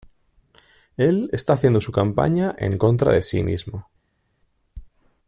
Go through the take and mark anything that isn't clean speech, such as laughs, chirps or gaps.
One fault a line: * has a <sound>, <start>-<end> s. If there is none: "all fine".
all fine